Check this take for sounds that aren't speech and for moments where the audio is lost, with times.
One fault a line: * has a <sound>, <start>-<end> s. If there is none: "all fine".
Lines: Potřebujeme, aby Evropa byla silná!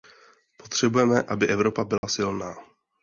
* has a dropout, 2.0-2.0 s